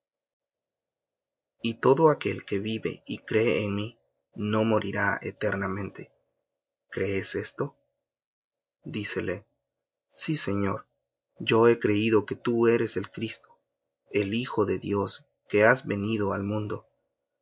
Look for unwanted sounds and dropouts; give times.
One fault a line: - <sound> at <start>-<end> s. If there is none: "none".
none